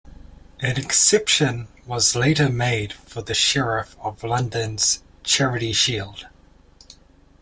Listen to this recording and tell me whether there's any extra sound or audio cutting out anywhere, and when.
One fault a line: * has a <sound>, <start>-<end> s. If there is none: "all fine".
all fine